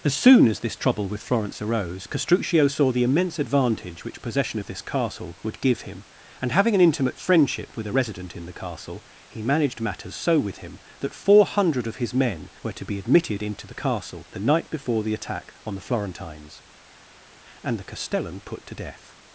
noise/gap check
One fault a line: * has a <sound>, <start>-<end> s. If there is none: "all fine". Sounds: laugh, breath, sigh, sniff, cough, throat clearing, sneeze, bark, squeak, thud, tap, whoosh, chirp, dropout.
all fine